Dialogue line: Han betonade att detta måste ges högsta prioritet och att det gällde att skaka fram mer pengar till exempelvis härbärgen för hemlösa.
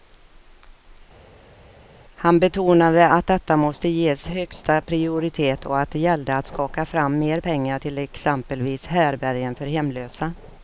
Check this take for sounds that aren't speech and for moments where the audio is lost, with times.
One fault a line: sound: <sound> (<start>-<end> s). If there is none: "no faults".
no faults